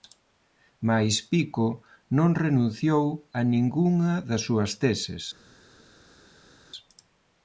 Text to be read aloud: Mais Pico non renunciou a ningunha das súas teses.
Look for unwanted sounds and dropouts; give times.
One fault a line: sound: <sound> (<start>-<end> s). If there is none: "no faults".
no faults